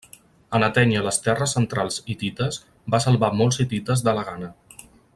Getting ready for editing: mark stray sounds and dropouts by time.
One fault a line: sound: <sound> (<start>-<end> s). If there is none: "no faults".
no faults